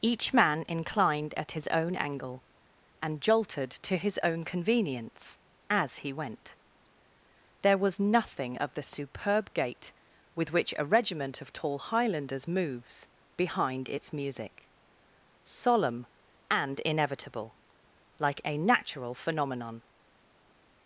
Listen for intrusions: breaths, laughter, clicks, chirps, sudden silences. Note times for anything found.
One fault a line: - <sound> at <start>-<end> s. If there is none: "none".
none